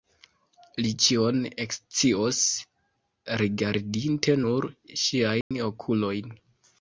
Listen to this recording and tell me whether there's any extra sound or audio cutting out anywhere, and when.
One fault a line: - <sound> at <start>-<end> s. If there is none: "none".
- dropout at 5.4-5.5 s